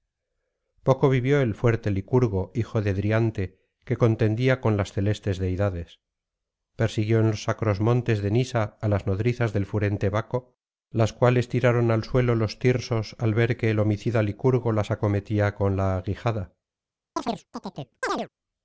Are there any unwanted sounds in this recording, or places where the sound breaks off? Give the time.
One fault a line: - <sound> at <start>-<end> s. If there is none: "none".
- chirp at 17.2-18.3 s